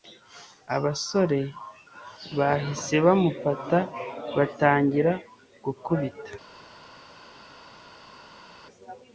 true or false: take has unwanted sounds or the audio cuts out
false